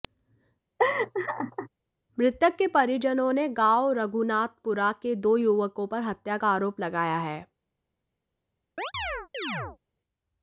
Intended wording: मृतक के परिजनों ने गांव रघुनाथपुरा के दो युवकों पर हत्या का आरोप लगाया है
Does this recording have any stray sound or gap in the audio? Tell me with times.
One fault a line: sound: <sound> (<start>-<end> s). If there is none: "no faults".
sound: laugh (0.8-1.7 s)
sound: chirp (8.8-9.8 s)